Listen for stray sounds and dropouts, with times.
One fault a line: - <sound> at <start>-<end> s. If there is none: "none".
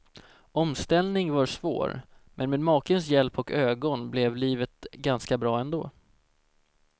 none